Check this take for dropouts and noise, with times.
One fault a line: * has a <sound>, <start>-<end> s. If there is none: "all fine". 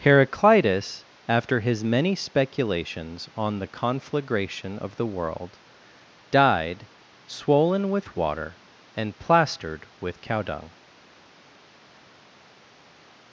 all fine